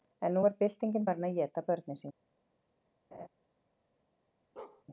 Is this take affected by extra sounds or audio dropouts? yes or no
yes